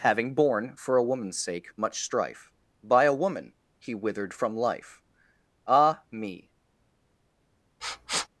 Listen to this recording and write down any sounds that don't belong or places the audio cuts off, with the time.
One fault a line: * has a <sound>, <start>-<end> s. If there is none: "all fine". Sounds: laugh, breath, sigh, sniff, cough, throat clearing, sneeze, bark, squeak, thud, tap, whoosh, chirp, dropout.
* has a sniff, 7.8-8.3 s